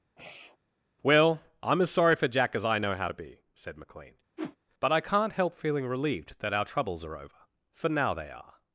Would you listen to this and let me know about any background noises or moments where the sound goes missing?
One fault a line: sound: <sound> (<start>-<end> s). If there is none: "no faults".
sound: sigh (0.2-0.6 s)
sound: whoosh (4.4-4.6 s)